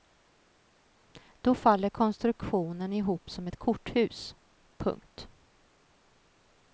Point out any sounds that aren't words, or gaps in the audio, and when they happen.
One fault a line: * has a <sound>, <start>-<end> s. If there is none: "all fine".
all fine